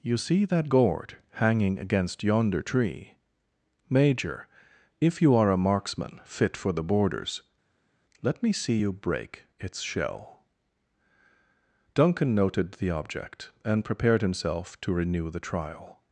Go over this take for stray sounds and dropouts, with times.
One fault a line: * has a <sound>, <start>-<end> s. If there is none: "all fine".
all fine